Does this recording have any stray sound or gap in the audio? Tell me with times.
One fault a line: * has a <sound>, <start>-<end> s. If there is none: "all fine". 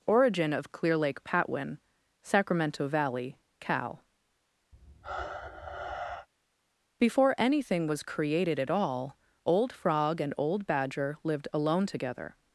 * has a sigh, 4.7-6.3 s